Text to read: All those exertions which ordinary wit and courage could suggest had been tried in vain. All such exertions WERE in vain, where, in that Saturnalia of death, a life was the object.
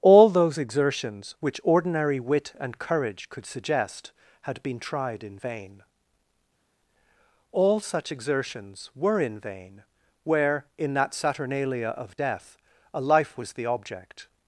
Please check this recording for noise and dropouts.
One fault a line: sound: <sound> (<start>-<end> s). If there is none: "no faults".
no faults